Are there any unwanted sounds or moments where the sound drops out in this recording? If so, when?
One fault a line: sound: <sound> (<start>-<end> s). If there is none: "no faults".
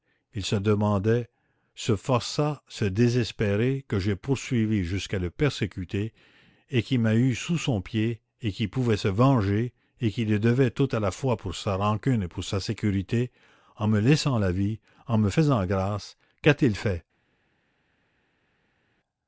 no faults